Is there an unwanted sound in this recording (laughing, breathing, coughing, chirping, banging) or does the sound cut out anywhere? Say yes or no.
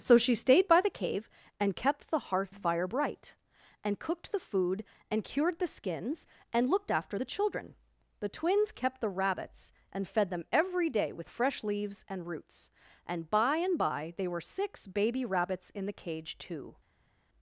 no